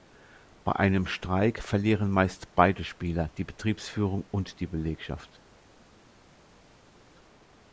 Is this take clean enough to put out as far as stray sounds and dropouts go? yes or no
yes